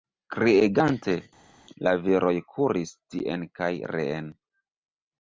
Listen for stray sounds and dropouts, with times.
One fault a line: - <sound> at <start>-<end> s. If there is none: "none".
none